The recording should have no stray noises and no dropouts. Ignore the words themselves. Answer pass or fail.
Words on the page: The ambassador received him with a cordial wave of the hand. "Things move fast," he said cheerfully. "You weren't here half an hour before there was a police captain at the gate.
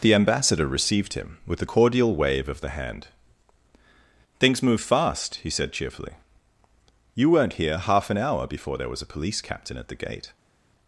pass